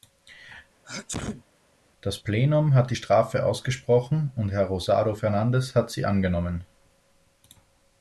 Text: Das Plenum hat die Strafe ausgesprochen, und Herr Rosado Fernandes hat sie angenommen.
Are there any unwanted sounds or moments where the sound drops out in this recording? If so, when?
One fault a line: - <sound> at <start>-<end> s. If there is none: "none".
- sneeze at 0.8-1.4 s